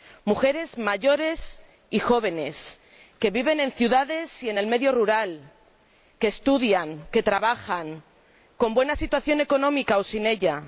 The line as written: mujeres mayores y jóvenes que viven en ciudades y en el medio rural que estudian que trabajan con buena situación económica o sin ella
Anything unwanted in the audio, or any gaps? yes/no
no